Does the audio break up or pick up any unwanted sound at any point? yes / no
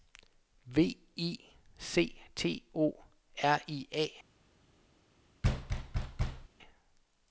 yes